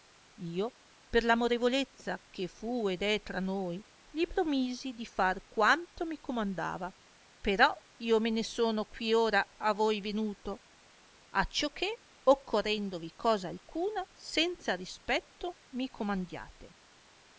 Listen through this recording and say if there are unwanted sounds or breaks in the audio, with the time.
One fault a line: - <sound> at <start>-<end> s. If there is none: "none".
none